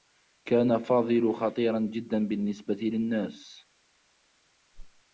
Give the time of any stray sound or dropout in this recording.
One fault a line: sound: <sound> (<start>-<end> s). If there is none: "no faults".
sound: whoosh (4.7-5.0 s)